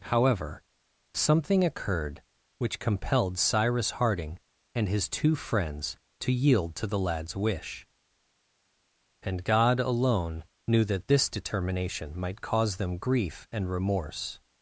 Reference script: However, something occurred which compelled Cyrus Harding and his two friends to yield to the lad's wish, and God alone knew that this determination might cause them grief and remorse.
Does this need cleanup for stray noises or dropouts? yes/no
no